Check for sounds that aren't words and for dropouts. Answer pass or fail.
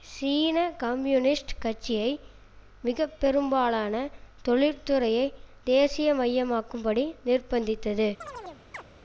fail